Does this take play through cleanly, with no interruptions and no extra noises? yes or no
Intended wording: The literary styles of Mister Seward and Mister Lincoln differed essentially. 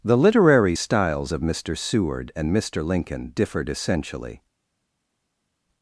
yes